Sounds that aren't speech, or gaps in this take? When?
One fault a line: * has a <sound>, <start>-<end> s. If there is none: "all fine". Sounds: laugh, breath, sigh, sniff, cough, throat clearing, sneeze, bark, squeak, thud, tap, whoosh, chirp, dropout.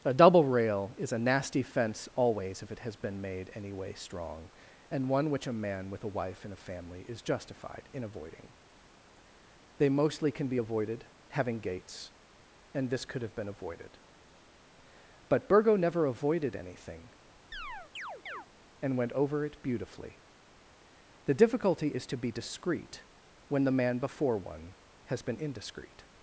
* has a chirp, 17.5-18.5 s